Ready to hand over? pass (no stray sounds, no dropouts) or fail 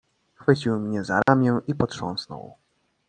fail